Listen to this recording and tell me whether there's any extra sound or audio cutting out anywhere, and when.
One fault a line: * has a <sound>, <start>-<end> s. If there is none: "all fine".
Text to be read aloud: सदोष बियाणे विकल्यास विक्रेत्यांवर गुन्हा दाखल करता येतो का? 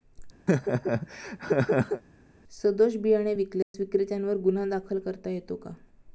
* has a laugh, 0.5-2.0 s
* has a dropout, 3.6-3.7 s